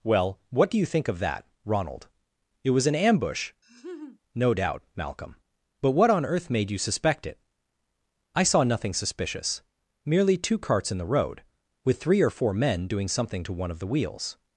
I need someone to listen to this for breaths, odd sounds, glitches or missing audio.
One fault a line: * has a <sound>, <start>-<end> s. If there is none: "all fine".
* has a laugh, 3.6-4.2 s